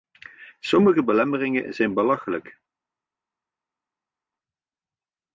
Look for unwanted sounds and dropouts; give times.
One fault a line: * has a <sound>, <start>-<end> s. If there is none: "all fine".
all fine